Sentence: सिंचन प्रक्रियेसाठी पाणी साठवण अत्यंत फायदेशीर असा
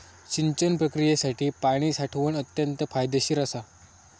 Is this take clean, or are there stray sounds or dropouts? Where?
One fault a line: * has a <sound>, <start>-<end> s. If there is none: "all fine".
all fine